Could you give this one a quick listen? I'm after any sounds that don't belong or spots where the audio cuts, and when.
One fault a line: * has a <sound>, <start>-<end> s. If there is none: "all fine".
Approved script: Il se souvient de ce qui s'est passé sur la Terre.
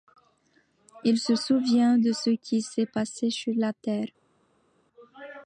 all fine